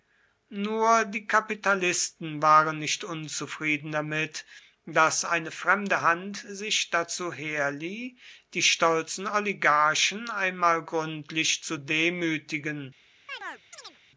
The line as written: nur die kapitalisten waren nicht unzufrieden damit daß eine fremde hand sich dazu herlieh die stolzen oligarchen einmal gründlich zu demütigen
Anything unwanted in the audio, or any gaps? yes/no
yes